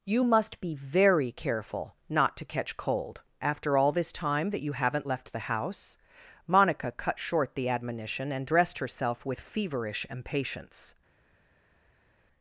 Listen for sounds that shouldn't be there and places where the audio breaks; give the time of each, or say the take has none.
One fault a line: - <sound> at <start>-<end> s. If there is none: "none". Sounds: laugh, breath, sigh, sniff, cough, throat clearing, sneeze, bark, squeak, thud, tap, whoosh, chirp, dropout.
none